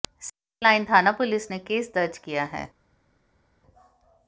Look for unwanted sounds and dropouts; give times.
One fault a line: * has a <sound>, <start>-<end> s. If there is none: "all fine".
all fine